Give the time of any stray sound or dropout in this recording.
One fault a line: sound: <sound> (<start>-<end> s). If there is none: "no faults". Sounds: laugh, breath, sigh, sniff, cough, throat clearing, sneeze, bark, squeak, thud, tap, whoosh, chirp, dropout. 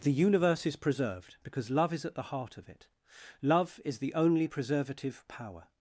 no faults